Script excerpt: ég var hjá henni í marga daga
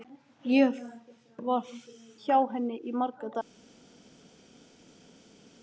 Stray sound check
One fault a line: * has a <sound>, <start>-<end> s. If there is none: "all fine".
all fine